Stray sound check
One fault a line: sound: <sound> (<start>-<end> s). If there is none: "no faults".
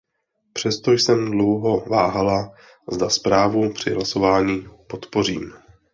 no faults